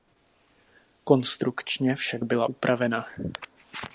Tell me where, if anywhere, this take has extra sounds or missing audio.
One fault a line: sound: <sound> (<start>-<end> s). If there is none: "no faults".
no faults